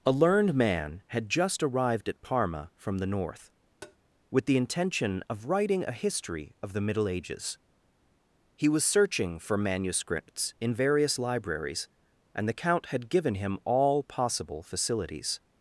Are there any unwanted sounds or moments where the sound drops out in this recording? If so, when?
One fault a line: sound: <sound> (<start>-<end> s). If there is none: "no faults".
sound: tap (3.8-4.0 s)